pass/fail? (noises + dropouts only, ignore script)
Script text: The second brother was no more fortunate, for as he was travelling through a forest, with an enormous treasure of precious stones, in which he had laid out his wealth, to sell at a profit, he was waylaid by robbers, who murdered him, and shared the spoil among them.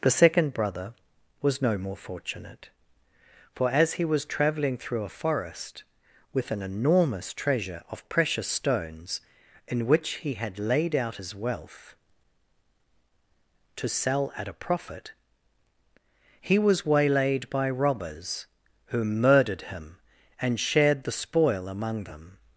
pass